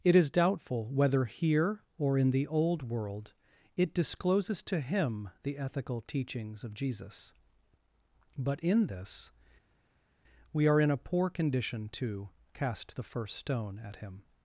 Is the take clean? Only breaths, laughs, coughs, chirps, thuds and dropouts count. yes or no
yes